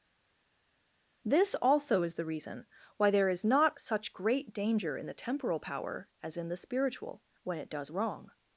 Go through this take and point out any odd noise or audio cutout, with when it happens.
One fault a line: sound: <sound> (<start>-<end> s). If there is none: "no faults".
no faults